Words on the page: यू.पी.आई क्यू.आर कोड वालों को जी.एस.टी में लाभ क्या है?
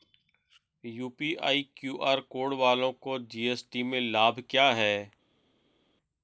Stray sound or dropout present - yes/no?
no